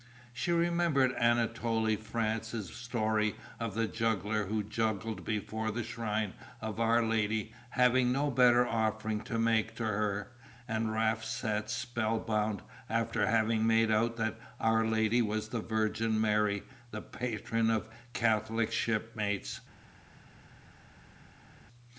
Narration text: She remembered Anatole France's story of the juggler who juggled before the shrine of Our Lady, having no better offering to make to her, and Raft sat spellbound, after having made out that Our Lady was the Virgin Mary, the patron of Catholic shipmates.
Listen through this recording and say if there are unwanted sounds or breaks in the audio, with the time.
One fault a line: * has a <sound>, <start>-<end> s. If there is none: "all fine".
all fine